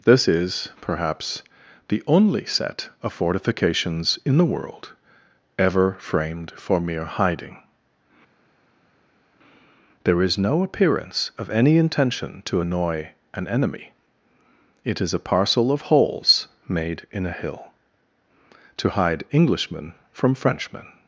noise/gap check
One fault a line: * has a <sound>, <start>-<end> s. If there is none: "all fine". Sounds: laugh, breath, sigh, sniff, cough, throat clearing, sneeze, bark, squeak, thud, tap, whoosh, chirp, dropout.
all fine